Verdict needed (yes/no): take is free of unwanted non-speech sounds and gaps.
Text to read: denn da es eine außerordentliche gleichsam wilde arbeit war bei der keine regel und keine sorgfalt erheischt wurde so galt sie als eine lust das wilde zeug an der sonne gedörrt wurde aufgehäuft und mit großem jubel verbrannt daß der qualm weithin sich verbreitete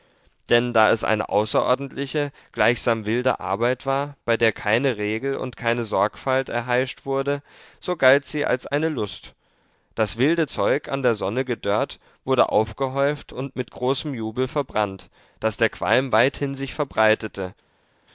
yes